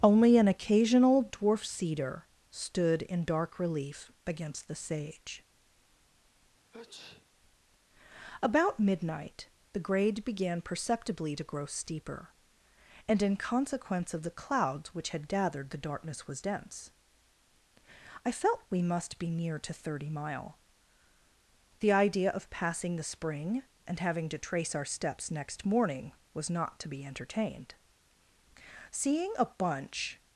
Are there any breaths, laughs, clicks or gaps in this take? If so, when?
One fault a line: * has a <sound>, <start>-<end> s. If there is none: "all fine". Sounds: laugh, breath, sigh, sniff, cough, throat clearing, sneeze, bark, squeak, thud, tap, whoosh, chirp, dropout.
* has a sneeze, 6.7-7.3 s